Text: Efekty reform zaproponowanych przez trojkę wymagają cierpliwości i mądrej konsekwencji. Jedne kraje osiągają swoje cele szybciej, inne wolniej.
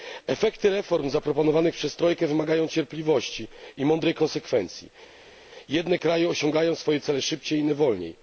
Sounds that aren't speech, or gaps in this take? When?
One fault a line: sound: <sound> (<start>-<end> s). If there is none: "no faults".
no faults